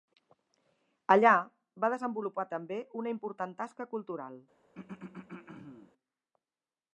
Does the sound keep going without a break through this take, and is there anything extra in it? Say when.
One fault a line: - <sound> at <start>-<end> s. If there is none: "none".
- throat clearing at 4.8-5.9 s